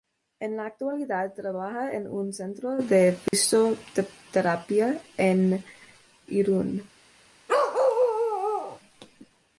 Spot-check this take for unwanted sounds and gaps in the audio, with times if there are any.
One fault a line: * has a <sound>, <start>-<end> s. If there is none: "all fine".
* has a dropout, 3.3-3.3 s
* has a bark, 7.5-8.8 s